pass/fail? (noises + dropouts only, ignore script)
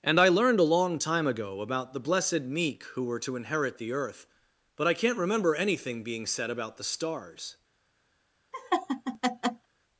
fail